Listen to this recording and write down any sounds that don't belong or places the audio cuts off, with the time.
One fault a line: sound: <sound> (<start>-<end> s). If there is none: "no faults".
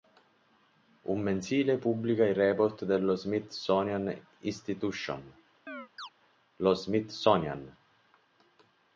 sound: chirp (5.7-6.1 s)